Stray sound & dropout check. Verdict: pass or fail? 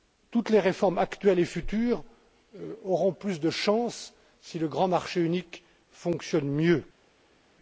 pass